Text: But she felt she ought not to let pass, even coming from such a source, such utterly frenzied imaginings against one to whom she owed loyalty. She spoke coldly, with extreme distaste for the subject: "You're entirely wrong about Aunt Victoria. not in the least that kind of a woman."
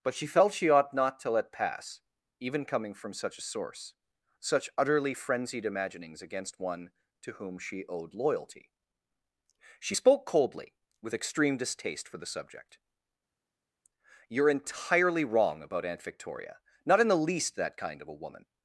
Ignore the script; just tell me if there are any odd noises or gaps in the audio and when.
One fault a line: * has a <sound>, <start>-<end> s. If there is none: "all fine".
all fine